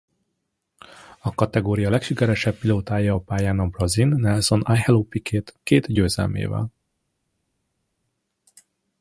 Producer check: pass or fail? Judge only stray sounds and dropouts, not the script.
pass